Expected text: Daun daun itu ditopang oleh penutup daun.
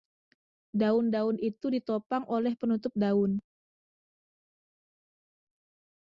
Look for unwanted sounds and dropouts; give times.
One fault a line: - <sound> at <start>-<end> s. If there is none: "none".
none